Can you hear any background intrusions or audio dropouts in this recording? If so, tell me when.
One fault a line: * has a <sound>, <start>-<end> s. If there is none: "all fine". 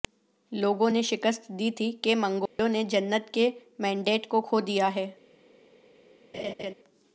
* has a dropout, 2.5-2.6 s
* has a laugh, 6.3-6.7 s